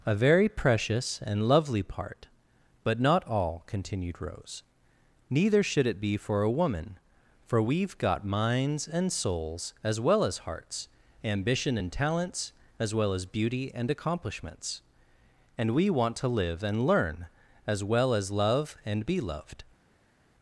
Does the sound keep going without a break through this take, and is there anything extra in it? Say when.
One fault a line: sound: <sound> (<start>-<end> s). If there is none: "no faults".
no faults